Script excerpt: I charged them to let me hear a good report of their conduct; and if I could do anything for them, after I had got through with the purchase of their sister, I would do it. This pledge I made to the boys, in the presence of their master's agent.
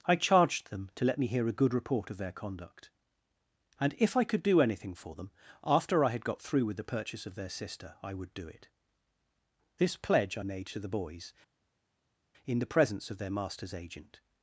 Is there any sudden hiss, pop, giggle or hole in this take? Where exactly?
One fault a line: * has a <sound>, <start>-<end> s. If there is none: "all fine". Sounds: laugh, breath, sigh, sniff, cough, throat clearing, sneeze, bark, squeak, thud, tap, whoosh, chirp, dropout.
all fine